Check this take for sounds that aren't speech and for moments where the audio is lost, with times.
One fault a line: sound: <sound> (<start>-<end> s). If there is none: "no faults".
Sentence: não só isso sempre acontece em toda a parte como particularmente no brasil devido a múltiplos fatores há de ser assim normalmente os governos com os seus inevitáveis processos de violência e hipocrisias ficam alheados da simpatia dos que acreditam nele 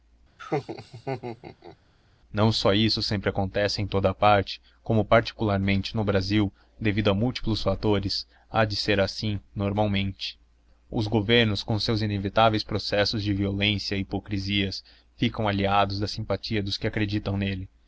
sound: laugh (0.4-1.8 s)